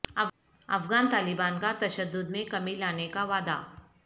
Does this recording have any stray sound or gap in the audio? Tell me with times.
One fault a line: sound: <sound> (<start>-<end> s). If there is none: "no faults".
no faults